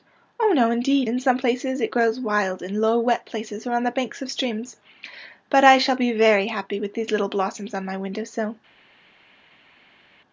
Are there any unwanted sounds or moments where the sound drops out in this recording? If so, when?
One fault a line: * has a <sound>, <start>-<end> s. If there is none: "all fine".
all fine